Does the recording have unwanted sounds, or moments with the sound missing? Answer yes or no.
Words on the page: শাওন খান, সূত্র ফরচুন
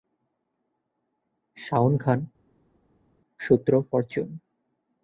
no